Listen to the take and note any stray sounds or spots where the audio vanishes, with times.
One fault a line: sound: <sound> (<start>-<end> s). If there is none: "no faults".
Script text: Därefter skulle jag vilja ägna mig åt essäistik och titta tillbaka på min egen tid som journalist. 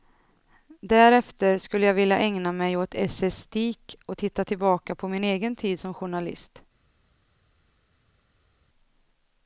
no faults